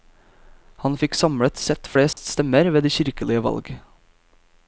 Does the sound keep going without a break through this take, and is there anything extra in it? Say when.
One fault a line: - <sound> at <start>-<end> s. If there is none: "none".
- dropout at 2.1-2.2 s